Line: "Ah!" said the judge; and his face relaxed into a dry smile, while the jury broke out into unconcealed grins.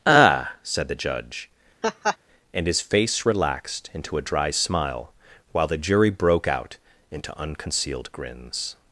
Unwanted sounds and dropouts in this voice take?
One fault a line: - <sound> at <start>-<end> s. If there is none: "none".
- laugh at 1.8-2.2 s